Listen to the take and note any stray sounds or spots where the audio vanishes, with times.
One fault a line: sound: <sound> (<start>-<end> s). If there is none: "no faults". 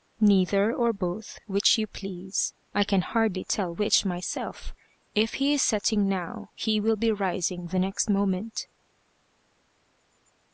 no faults